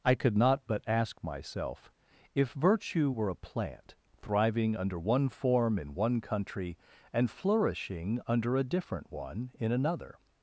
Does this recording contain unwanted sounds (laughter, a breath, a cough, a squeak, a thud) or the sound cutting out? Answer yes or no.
no